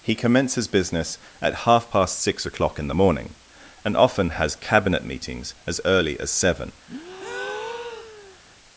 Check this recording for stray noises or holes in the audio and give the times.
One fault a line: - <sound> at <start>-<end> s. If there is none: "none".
- breath at 6.9-8.4 s